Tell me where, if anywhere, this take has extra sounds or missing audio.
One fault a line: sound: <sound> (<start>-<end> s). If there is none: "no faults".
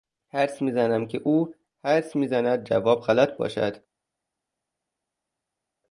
no faults